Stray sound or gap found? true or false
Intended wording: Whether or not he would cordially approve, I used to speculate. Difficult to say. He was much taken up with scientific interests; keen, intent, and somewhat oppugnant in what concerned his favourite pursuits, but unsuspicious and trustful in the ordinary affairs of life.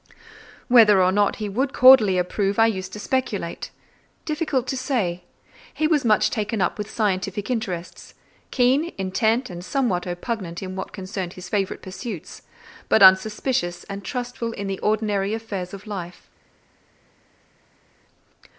false